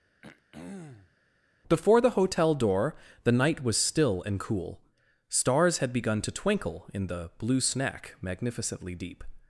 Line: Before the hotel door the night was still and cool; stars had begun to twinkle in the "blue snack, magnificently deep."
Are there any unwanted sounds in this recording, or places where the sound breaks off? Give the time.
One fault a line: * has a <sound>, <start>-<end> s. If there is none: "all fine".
* has a throat clearing, 0.2-1.2 s